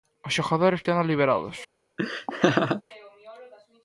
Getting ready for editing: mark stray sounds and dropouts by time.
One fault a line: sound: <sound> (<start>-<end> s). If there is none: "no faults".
sound: laugh (2.0-2.8 s)